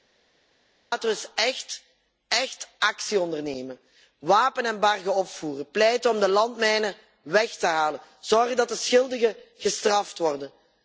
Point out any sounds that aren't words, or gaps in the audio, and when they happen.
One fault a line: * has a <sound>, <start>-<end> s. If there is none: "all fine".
all fine